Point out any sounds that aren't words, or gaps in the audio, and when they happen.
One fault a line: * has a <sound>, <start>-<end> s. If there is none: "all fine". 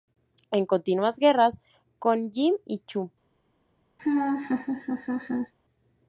* has a laugh, 4.0-5.5 s